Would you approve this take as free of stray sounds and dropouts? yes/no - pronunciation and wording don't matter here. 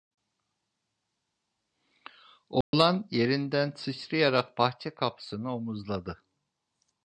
no